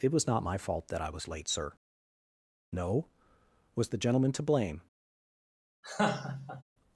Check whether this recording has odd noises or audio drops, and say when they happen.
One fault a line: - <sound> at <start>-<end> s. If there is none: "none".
- laugh at 5.8-6.6 s